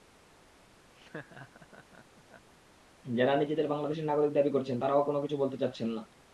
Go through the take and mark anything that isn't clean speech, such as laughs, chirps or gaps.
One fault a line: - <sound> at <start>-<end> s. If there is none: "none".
- laugh at 0.9-2.5 s